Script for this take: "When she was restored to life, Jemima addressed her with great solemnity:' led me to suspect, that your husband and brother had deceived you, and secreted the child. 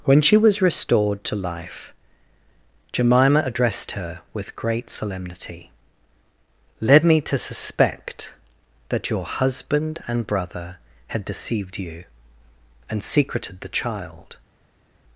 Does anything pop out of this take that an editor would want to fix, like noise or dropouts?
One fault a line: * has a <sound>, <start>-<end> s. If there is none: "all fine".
all fine